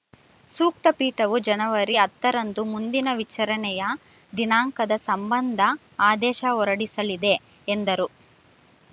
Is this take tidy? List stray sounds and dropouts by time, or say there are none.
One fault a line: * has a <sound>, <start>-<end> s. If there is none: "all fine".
all fine